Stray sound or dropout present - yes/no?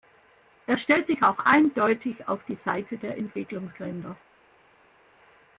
no